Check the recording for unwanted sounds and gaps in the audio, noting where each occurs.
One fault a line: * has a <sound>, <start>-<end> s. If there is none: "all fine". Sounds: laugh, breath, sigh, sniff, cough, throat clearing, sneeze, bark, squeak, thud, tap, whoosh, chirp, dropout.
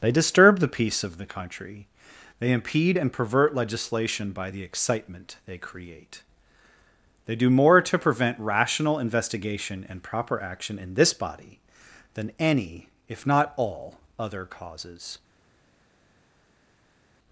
all fine